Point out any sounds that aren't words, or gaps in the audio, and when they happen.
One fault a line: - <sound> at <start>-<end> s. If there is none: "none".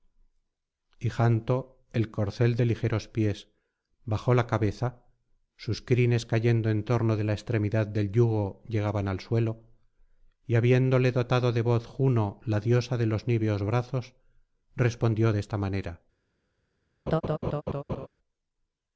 - laugh at 17.1-18.1 s